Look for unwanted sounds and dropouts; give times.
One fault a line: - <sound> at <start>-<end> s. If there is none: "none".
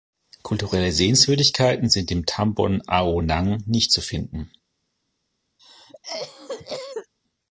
- cough at 5.6-7.1 s